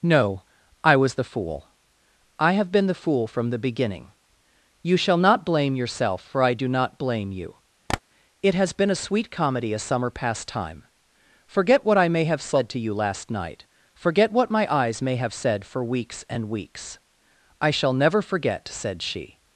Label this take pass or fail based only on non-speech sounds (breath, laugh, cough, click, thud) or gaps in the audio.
fail